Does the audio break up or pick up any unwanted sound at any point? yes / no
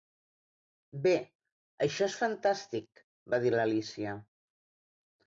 no